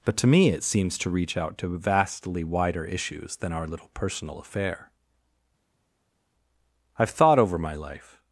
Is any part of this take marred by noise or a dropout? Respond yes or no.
no